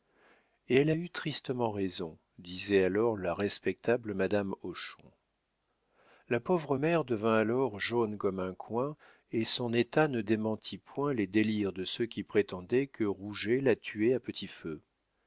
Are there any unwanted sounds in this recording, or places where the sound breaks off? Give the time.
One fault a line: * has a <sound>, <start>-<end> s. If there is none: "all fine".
all fine